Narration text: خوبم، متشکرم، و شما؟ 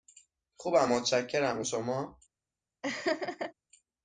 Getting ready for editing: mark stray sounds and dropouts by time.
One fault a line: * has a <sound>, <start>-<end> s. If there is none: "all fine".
* has a laugh, 2.8-3.5 s